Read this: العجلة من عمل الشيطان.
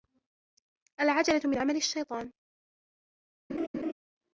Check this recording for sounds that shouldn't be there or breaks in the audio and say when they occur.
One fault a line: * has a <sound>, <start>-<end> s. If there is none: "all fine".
* has a laugh, 3.5-3.9 s